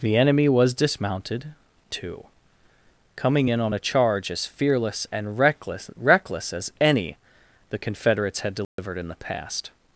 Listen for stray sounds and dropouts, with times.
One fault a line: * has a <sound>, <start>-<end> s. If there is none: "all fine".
* has a dropout, 8.6-8.8 s